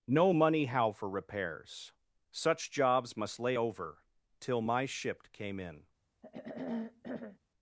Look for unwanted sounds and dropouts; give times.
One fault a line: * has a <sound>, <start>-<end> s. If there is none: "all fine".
* has a throat clearing, 6.2-7.4 s